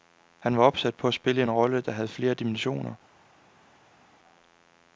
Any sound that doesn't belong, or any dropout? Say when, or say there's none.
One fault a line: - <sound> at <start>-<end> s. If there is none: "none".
none